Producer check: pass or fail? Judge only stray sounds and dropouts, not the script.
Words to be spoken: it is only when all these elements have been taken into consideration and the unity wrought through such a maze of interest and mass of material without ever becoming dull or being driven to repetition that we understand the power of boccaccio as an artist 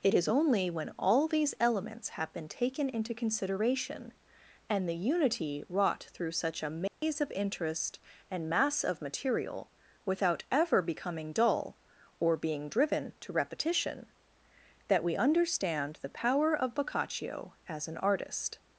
fail